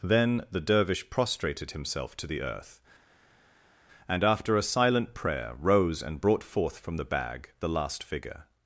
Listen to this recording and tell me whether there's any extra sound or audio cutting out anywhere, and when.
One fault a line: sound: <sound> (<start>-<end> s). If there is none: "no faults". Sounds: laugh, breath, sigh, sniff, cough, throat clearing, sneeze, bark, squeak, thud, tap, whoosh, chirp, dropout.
no faults